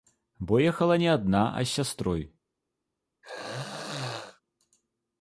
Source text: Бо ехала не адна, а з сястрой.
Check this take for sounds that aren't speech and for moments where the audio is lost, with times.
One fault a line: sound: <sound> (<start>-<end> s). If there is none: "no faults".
sound: throat clearing (3.2-4.4 s)